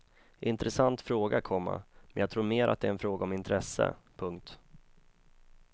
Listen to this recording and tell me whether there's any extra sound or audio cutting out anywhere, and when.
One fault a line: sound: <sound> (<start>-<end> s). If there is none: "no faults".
no faults